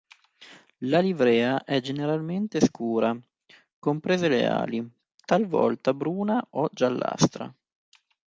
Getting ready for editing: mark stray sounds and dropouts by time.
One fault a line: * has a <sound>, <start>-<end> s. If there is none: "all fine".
all fine